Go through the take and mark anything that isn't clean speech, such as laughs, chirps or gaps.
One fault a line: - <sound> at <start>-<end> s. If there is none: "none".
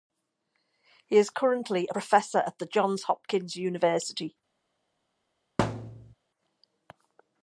- thud at 5.6-6.1 s